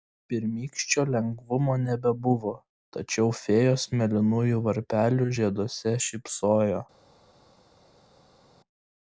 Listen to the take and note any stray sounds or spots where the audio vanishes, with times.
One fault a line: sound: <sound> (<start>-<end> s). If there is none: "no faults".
no faults